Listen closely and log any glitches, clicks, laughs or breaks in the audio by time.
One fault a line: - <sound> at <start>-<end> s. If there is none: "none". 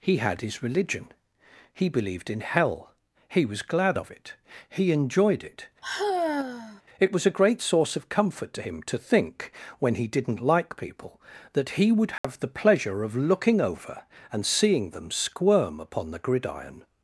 - sigh at 5.8-6.8 s
- dropout at 12.2-12.2 s